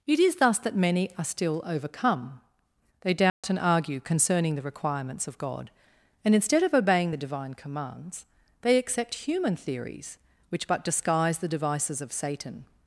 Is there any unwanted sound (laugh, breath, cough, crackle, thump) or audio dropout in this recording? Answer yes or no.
yes